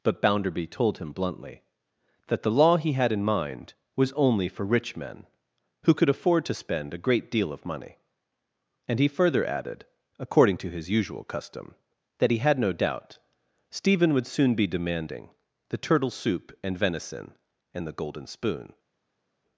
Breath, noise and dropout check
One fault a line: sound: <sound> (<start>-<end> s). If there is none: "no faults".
no faults